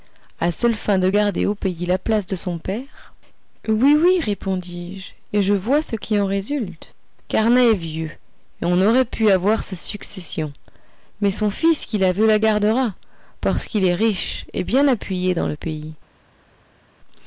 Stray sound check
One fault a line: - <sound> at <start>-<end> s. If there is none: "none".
none